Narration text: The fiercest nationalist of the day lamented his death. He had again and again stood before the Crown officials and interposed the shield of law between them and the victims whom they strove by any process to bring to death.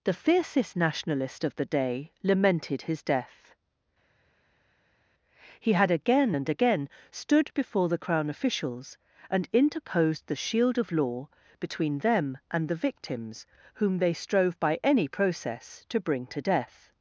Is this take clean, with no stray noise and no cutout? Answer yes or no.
yes